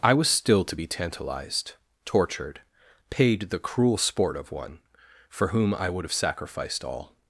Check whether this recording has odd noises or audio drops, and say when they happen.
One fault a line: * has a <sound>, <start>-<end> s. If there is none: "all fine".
all fine